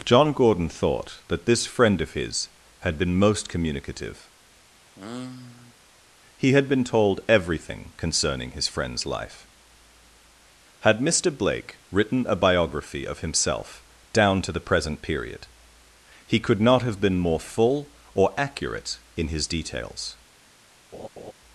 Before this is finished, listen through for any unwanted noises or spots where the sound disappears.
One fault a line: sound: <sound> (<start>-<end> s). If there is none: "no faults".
sound: sigh (4.9-5.7 s)
sound: laugh (20.9-21.3 s)